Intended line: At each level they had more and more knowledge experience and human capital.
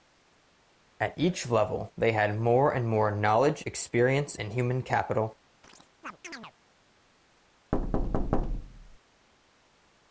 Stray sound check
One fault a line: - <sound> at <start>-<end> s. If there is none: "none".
- chirp at 5.6-6.5 s
- thud at 7.7-9.0 s